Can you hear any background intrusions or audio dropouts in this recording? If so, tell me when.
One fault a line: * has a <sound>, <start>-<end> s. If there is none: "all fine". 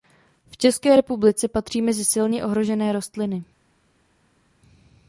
all fine